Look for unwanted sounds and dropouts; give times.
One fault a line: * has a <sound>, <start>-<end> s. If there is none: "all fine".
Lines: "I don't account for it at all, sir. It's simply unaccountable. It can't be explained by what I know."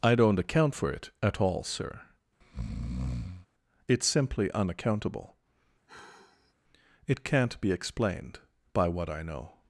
* has a breath, 2.4-3.5 s
* has a sigh, 5.9-6.5 s